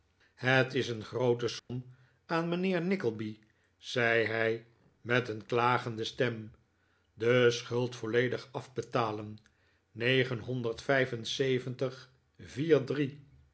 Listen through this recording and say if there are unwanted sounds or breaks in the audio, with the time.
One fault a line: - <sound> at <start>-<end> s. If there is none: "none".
- dropout at 1.6-1.7 s